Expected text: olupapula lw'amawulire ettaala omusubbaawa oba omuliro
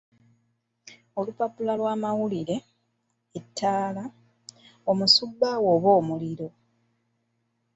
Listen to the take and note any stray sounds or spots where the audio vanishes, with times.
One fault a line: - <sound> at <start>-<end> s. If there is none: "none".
none